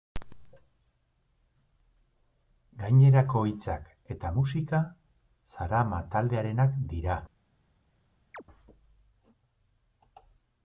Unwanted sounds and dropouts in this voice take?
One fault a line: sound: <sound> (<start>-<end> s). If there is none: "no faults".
sound: chirp (8.3-8.4 s)